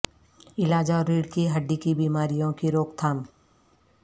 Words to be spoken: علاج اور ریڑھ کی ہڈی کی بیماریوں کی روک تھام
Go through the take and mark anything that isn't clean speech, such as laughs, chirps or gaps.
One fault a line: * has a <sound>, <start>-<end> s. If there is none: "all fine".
all fine